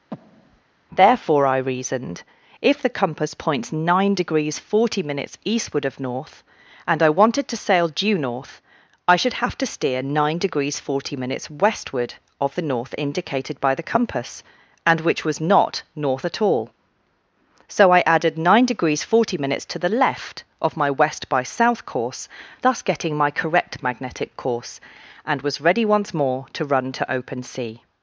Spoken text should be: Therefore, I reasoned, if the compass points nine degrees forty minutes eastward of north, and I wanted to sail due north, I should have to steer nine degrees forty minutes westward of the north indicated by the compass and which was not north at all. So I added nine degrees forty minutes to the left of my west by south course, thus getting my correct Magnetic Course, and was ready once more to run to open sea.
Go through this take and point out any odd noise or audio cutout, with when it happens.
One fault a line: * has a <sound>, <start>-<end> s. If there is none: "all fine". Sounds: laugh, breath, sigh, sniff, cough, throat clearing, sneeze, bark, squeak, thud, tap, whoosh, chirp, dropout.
* has a breath, 0.1-0.6 s